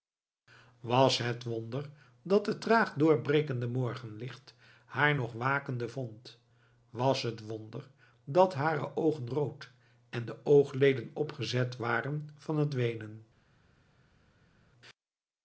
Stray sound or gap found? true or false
false